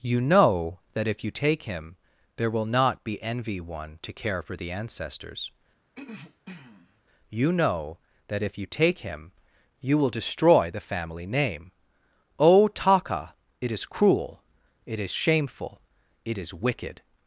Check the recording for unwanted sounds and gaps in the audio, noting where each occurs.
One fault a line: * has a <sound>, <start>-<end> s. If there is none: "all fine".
* has a throat clearing, 5.9-7.0 s